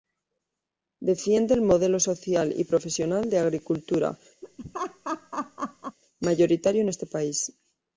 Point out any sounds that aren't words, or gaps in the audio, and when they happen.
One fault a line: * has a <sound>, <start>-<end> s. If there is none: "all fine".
* has a laugh, 4.4-6.0 s